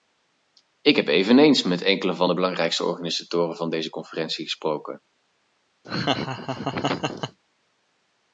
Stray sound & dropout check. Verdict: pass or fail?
fail